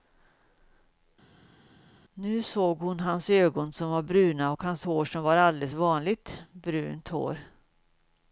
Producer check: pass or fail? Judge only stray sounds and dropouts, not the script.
pass